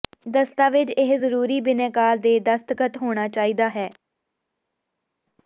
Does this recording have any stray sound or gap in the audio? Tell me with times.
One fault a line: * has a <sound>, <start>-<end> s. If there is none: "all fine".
all fine